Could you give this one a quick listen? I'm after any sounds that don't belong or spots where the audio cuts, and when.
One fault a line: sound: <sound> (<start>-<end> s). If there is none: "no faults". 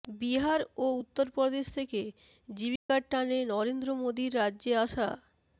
sound: dropout (2.8-2.9 s)